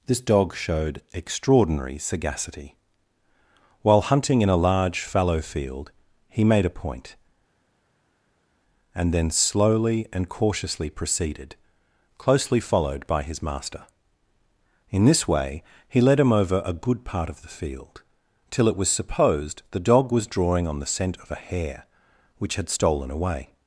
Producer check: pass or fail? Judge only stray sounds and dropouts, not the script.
pass